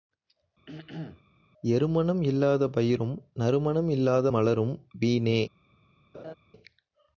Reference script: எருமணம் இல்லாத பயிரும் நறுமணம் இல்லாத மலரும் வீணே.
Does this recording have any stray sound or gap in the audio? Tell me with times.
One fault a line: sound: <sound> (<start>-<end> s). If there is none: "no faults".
sound: throat clearing (0.7-1.2 s)
sound: laugh (6.1-6.3 s)